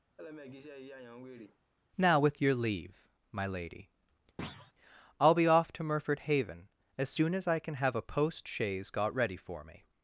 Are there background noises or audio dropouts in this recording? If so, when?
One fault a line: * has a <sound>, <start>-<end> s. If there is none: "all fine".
* has a laugh, 0.2-1.6 s
* has a thud, 4.4-4.7 s